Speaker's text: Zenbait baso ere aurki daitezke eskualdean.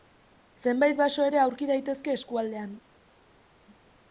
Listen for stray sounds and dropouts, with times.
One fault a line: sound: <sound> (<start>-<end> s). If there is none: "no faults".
no faults